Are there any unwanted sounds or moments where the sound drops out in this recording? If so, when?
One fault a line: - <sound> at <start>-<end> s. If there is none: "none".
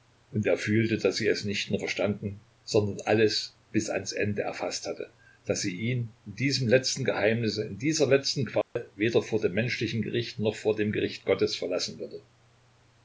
- dropout at 8.6-8.8 s